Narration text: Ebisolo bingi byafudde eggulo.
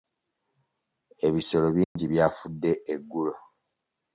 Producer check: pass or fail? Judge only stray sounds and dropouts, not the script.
fail